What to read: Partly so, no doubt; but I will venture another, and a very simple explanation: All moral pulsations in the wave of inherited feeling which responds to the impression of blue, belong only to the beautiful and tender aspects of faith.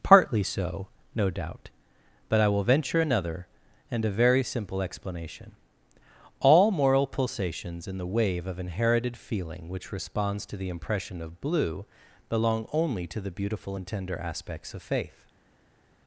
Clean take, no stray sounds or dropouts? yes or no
yes